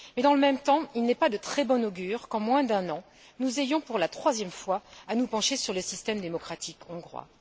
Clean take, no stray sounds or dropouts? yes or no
yes